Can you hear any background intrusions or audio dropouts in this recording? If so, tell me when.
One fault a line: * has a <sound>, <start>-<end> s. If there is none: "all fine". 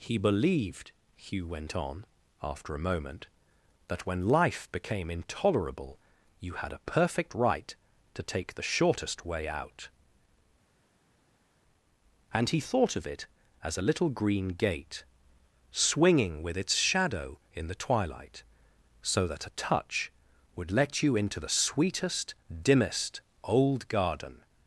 all fine